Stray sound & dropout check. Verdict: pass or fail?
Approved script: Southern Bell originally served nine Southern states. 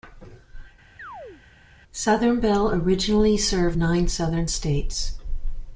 fail